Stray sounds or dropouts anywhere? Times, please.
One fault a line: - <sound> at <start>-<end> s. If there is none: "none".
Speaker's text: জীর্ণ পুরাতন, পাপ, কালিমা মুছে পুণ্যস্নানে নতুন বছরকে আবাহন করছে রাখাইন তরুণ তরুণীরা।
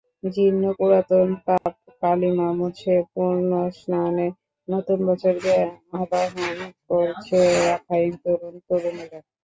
- dropout at 1.6-1.7 s